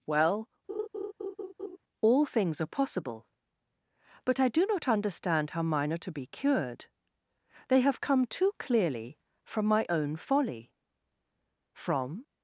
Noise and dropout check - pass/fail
fail